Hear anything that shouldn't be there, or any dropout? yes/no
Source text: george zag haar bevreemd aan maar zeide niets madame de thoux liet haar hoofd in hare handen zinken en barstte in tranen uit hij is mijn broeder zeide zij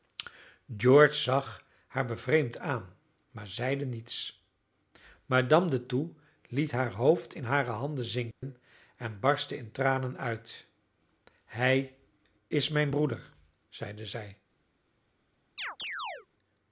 yes